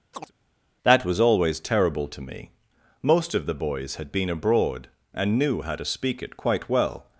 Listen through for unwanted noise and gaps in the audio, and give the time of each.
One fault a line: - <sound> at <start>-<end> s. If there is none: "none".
- chirp at 0.1-0.3 s